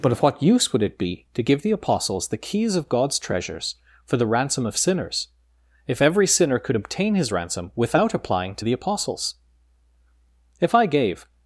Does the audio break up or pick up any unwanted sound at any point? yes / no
no